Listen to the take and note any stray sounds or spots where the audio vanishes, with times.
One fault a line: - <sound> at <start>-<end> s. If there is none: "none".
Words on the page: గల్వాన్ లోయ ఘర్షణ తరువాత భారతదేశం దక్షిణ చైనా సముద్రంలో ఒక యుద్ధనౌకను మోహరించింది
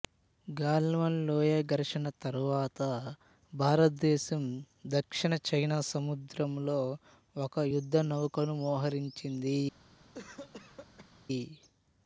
- cough at 10.1-11.2 s